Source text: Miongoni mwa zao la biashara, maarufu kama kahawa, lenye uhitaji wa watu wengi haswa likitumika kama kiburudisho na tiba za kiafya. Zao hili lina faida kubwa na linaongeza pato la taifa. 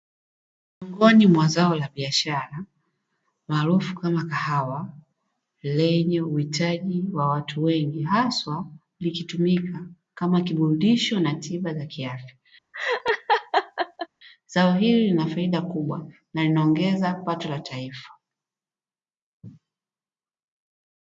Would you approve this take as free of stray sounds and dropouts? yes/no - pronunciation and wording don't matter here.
no